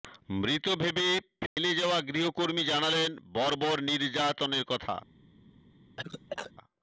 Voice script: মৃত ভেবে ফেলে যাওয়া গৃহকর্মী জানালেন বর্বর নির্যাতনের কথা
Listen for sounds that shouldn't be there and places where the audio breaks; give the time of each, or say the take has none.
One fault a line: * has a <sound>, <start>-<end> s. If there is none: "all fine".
* has a dropout, 1.5-1.6 s
* has a cough, 6.0-6.5 s